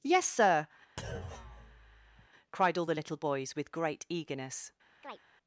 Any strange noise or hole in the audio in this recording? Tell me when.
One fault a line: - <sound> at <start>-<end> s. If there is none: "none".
- thud at 1.0-2.3 s
- chirp at 5.0-5.2 s